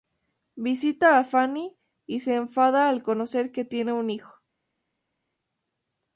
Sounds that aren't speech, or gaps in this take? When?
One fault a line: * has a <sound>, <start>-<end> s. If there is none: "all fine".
all fine